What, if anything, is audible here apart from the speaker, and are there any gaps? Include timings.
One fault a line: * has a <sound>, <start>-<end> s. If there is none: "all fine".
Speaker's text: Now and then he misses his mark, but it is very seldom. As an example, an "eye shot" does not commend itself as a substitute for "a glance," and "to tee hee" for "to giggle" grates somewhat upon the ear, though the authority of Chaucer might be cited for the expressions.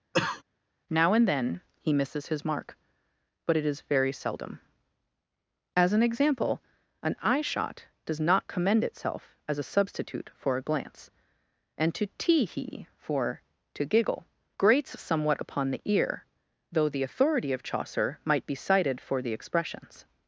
* has a cough, 0.1-0.4 s